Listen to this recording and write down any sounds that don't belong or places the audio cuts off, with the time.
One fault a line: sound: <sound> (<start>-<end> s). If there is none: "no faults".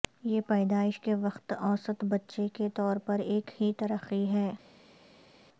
no faults